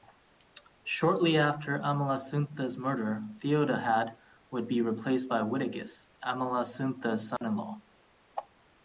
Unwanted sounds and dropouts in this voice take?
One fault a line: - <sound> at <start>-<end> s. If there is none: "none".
- dropout at 7.4-7.4 s